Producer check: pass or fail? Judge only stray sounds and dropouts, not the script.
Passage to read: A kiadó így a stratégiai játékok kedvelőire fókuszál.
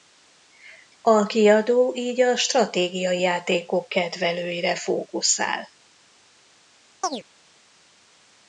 fail